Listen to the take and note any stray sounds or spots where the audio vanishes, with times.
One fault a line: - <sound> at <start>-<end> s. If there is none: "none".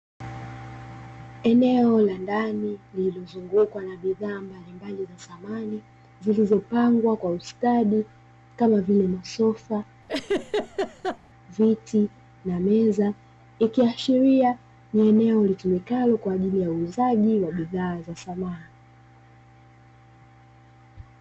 - laugh at 10.1-11.2 s